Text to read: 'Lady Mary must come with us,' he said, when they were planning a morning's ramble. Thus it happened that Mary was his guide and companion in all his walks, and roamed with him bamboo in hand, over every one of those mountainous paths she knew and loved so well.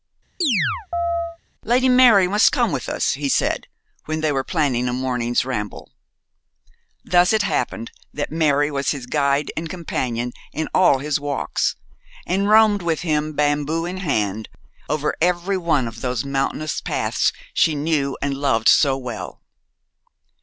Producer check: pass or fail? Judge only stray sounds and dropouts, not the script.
fail